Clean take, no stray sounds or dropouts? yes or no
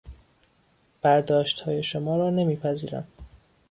yes